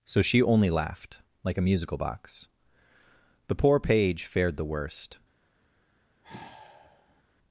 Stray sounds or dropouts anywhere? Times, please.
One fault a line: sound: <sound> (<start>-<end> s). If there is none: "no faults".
sound: sigh (6.2-7.2 s)